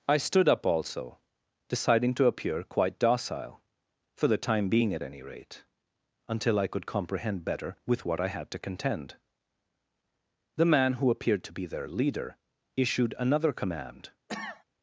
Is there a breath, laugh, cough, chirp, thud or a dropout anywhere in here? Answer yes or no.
yes